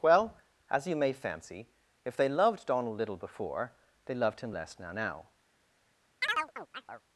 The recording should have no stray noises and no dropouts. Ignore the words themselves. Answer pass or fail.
fail